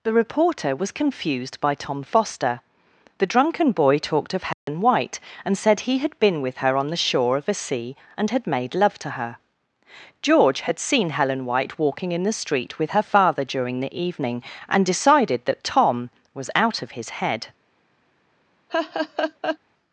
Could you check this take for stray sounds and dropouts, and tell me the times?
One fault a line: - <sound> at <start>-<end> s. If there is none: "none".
- dropout at 4.5-4.7 s
- laugh at 18.7-19.6 s